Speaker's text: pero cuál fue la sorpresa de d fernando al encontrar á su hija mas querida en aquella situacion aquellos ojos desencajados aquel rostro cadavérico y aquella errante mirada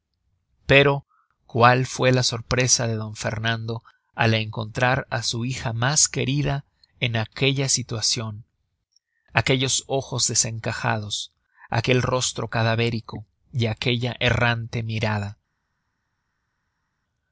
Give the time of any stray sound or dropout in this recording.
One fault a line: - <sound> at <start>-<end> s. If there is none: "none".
none